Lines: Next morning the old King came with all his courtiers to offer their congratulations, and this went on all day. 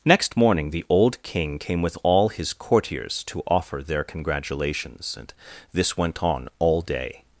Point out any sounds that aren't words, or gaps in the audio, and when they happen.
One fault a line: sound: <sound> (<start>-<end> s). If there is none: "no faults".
no faults